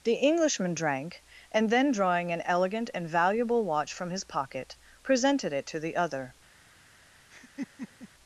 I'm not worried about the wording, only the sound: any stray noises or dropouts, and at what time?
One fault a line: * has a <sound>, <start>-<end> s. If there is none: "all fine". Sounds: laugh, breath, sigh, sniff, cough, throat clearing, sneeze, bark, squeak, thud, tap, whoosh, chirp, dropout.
* has a laugh, 7.3-8.1 s